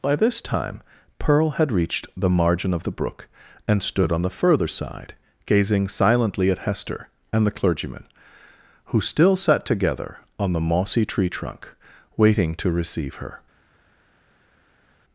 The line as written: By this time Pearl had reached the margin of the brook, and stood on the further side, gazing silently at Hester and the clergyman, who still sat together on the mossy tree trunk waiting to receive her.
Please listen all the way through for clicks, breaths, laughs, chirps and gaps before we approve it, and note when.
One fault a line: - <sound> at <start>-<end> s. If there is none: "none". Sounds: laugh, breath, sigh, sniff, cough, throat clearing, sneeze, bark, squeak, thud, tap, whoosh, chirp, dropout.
none